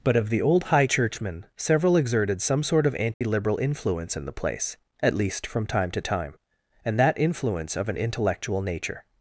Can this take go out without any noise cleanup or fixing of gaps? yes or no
no